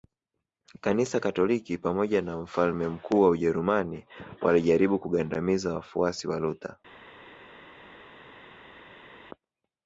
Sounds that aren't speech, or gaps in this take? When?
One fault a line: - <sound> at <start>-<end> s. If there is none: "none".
none